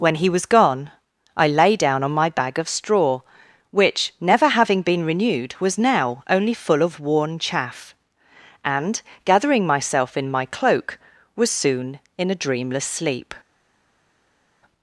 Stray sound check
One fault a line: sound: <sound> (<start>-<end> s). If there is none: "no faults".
no faults